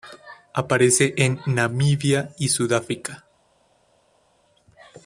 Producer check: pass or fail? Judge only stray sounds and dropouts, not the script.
pass